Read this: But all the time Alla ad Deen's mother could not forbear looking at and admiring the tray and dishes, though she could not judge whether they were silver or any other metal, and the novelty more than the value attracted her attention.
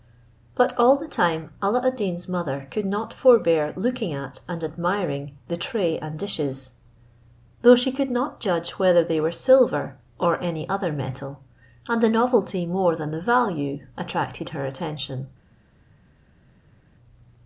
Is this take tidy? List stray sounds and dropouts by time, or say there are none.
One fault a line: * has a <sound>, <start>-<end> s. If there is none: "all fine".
all fine